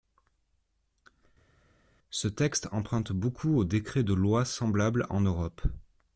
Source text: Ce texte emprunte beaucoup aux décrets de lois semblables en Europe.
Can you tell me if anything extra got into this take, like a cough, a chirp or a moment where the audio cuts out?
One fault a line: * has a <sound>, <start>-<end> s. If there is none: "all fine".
all fine